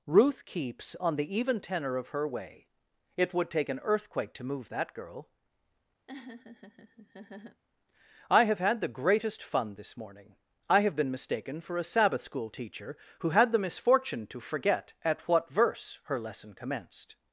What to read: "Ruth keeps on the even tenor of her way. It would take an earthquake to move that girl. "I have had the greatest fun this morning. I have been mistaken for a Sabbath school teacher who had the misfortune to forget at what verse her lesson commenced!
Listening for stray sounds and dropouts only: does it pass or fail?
fail